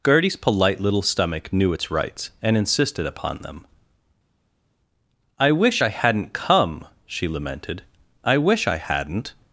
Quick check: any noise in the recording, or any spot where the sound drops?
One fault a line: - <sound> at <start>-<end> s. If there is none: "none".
none